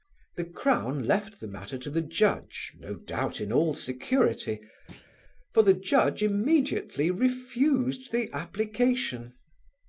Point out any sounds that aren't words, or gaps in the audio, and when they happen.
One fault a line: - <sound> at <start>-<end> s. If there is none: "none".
- thud at 4.9-5.1 s